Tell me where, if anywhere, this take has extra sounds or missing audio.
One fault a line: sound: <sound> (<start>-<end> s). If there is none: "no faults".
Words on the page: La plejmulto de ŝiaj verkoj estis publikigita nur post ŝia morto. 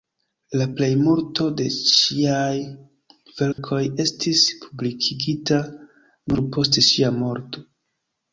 sound: dropout (3.5-3.6 s)